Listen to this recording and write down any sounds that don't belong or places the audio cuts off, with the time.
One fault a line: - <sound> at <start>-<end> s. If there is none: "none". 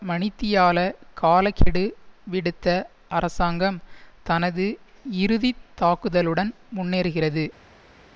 none